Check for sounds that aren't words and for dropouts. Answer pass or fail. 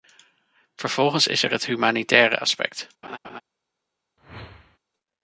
fail